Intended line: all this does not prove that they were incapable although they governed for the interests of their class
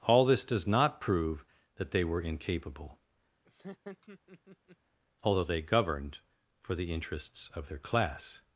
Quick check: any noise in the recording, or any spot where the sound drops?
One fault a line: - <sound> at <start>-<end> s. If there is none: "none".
- laugh at 3.5-4.8 s